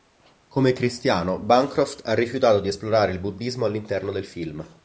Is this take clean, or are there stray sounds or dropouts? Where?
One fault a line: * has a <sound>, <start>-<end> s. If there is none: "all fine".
all fine